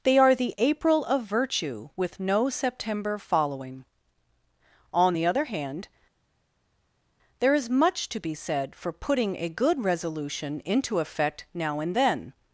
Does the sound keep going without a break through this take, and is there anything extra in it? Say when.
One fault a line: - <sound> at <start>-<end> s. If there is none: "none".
none